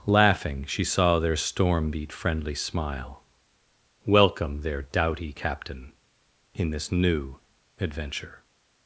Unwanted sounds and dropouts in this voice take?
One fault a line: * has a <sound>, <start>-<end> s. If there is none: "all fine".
all fine